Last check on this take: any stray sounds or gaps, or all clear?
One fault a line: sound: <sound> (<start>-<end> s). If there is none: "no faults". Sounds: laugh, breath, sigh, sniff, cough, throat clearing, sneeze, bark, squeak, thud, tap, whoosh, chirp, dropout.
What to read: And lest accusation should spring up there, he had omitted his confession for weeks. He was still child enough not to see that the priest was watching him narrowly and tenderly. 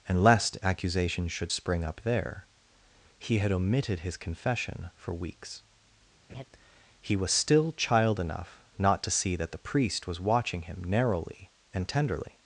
sound: laugh (6.3-6.4 s)